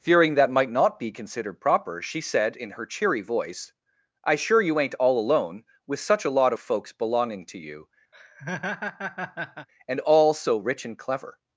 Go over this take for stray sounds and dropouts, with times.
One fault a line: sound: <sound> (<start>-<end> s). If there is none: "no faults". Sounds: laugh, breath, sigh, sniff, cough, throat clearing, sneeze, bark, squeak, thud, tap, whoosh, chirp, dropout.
sound: laugh (8.1-9.7 s)